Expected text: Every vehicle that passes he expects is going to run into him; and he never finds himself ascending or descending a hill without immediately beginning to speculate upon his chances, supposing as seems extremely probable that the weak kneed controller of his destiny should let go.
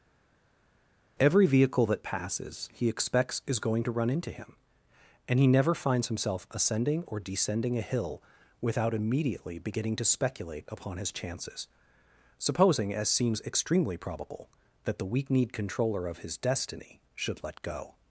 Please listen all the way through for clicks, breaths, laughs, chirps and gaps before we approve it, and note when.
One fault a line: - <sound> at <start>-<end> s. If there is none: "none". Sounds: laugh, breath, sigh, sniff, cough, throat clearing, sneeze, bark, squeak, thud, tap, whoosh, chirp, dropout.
none